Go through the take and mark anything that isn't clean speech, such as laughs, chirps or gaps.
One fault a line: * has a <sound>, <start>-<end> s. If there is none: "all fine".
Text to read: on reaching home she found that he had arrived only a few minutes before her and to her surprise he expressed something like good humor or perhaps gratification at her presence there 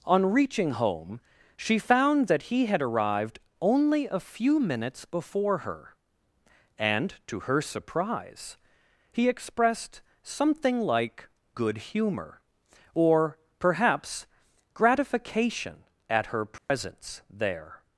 * has a dropout, 16.6-16.7 s